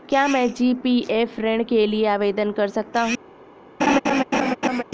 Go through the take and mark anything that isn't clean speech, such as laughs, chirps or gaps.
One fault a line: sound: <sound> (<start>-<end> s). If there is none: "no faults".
sound: laugh (3.8-4.8 s)